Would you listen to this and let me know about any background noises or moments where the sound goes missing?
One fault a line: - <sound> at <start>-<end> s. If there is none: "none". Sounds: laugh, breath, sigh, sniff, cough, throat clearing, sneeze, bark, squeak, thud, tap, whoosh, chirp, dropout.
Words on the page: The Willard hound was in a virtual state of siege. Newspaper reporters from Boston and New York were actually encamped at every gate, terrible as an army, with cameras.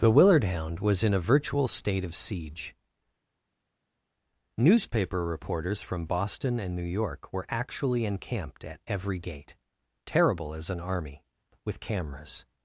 none